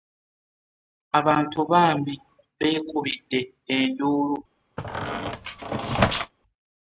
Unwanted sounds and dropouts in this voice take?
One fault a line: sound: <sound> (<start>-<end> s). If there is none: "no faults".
sound: squeak (4.8-6.3 s)